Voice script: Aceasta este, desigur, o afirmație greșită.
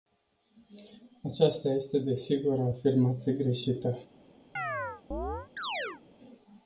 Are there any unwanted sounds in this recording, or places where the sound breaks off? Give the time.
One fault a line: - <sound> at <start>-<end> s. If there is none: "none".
- chirp at 4.6-6.0 s